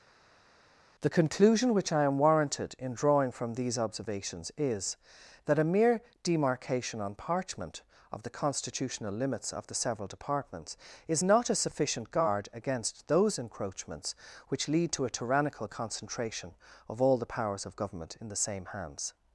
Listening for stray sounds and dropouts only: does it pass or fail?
pass